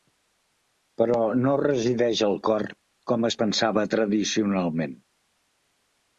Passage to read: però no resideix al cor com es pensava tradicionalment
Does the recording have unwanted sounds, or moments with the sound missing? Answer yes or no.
no